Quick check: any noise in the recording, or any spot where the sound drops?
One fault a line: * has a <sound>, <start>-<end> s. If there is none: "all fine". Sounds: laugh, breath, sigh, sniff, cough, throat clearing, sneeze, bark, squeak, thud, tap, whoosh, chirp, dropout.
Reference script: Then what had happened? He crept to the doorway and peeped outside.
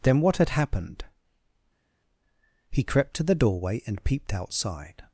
all fine